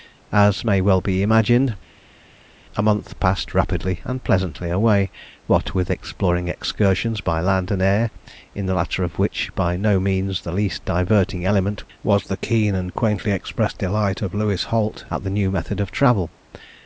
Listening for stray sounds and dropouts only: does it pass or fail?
pass